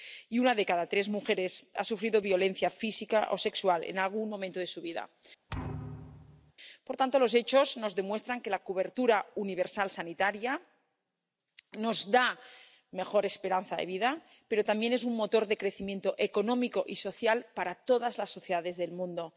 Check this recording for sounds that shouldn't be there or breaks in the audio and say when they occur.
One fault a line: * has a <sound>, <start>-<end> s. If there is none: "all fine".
* has a thud, 5.5-6.5 s